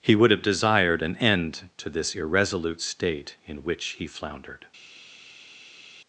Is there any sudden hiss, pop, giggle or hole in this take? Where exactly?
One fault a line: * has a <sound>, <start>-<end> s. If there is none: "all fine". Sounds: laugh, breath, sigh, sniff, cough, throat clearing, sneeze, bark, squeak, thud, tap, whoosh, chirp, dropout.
all fine